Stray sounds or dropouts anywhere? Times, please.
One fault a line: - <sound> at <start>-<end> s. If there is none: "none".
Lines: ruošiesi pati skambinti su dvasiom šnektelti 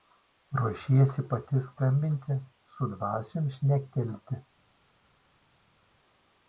none